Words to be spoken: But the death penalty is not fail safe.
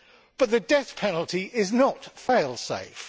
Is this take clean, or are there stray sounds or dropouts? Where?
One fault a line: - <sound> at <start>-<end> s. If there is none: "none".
none